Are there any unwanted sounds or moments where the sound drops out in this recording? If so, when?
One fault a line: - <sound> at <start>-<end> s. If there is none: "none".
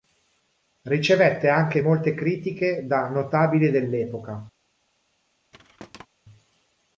- thud at 5.5-6.1 s